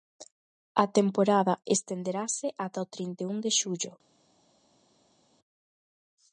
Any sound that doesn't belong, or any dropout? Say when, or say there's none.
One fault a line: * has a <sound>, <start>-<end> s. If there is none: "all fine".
all fine